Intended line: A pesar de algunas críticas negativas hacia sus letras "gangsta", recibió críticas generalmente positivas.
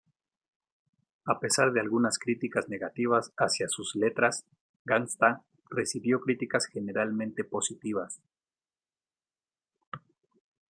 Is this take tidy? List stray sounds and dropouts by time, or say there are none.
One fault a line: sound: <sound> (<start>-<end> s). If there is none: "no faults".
no faults